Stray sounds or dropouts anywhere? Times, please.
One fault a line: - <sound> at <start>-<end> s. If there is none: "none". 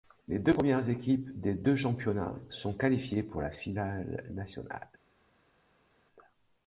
none